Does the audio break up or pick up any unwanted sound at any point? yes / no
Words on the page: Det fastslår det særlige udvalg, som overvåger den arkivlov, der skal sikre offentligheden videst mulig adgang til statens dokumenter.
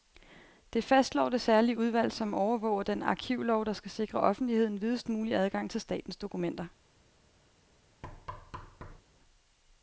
yes